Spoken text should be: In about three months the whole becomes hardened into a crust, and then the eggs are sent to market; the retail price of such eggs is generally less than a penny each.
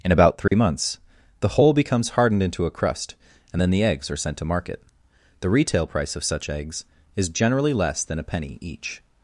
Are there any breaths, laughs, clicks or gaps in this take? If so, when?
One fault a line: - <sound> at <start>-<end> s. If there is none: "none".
- dropout at 0.5-0.5 s